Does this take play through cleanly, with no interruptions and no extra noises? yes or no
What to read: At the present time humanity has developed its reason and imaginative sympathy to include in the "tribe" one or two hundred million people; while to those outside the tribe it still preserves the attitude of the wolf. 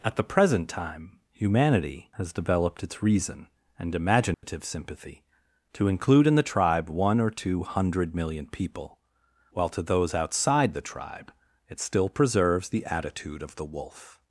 no